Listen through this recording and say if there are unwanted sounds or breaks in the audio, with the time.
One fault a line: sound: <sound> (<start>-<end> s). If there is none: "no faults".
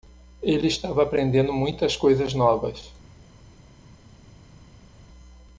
no faults